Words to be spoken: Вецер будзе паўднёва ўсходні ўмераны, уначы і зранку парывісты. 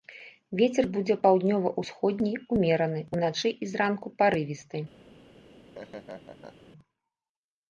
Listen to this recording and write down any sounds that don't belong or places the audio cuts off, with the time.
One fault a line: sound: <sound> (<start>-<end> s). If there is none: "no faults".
sound: laugh (5.3-6.7 s)